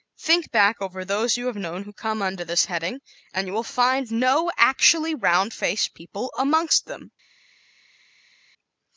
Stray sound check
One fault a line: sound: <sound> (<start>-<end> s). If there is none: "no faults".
no faults